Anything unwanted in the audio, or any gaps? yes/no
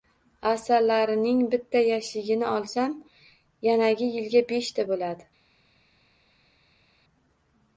no